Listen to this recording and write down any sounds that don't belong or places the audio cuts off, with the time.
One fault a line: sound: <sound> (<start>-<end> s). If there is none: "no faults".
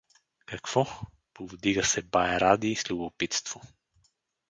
no faults